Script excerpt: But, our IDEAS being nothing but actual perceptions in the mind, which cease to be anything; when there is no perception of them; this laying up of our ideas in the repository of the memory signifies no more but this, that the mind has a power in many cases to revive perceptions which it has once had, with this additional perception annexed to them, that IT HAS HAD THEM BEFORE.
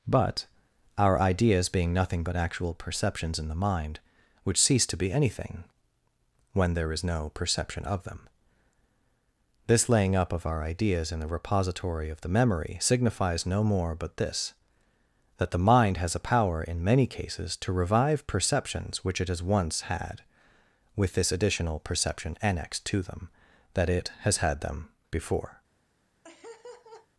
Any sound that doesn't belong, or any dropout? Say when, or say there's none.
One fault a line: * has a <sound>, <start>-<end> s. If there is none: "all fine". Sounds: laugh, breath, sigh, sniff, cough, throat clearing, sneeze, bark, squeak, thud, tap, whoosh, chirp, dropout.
* has a laugh, 26.2-27.1 s